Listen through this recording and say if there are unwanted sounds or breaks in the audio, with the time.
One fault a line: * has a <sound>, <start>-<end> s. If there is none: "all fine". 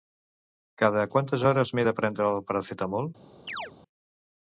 * has a chirp, 3.5-3.7 s